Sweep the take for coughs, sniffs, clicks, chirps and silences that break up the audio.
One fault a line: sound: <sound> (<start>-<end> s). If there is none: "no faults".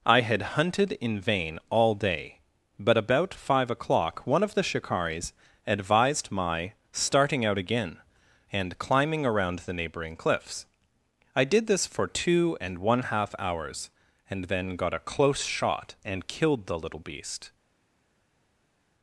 no faults